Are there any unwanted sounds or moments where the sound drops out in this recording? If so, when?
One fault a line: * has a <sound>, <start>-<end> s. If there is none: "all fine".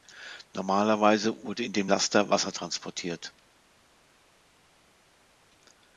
all fine